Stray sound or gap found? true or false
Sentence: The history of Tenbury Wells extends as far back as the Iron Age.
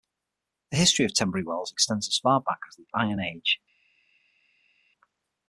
false